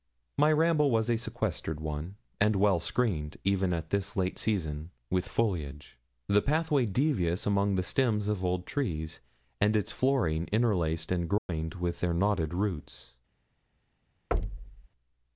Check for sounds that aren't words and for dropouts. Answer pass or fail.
fail